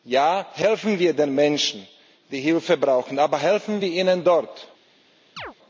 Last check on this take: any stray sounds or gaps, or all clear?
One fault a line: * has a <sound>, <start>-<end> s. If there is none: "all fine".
* has a chirp, 5.4-5.5 s